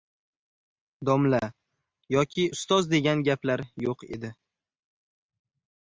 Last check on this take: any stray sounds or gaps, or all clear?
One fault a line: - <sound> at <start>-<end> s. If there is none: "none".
none